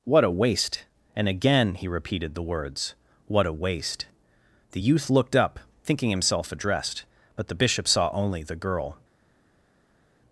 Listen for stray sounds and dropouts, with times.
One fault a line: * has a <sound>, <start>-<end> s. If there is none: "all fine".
all fine